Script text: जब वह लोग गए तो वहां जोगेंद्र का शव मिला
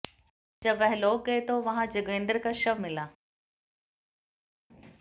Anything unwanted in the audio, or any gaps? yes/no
no